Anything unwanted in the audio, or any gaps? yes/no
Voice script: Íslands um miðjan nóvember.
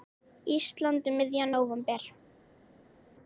no